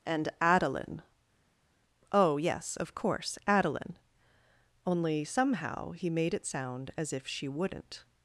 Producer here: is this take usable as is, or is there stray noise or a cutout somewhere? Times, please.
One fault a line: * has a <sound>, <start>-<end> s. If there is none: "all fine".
all fine